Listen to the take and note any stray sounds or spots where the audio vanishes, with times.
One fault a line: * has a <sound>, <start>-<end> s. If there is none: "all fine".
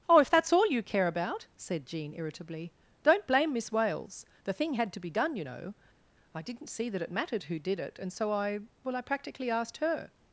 all fine